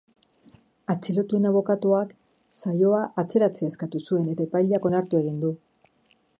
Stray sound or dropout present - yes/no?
no